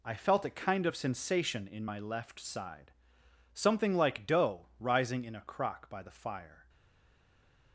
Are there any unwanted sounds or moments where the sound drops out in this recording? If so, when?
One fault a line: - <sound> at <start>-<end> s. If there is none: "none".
none